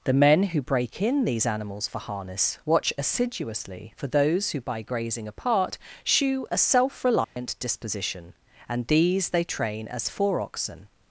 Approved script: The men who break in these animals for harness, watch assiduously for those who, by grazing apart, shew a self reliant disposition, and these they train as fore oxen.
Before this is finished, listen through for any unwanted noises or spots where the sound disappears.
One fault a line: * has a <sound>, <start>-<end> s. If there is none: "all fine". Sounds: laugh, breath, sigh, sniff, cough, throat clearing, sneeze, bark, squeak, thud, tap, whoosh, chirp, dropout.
* has a dropout, 7.2-7.4 s